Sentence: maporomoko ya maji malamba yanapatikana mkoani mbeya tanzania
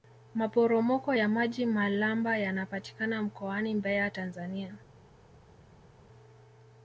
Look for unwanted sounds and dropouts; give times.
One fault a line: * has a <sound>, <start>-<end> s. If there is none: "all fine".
all fine